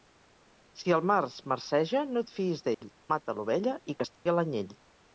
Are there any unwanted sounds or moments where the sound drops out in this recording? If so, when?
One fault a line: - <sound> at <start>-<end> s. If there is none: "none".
- dropout at 2.7-2.8 s
- dropout at 4.2-4.3 s